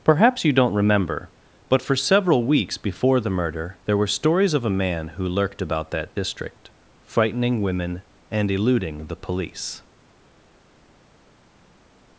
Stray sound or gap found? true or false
false